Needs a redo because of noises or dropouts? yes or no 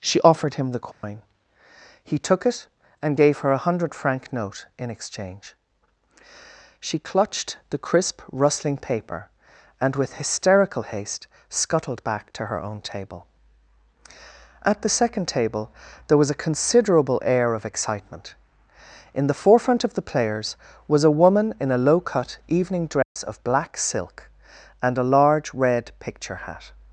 yes